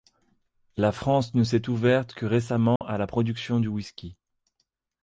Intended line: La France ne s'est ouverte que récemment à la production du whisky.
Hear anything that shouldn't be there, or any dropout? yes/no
yes